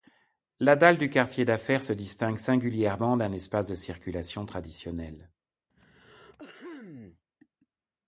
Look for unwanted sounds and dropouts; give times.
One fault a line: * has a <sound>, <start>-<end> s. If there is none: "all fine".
* has a throat clearing, 5.7-7.2 s